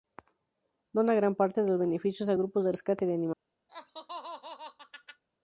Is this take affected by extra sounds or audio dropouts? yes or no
yes